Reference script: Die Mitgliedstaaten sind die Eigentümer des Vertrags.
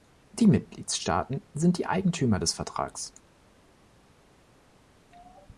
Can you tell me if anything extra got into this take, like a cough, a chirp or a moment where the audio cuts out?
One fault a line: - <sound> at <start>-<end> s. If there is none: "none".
none